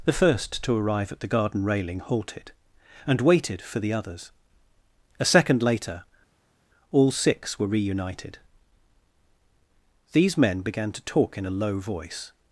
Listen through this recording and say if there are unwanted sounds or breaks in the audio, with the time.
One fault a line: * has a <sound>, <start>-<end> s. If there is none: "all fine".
all fine